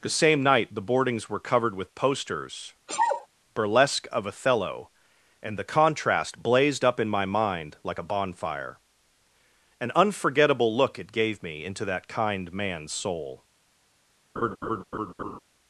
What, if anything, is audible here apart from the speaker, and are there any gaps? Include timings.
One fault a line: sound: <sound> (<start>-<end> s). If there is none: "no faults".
sound: sneeze (2.9-3.3 s)
sound: laugh (14.4-15.4 s)